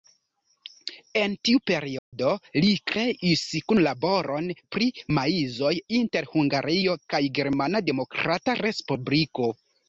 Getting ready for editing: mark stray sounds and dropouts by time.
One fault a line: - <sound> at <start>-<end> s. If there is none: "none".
- dropout at 2.0-2.1 s